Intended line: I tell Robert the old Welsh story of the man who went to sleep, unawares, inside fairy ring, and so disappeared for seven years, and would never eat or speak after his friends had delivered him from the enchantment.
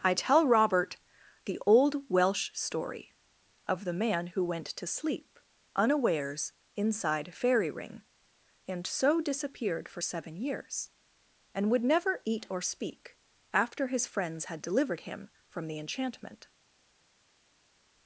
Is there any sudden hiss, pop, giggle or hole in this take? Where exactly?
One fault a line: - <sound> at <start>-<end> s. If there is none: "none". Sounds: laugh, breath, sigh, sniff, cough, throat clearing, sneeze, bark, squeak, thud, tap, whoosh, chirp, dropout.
none